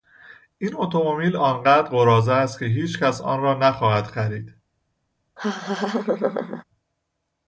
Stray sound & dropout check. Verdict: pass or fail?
fail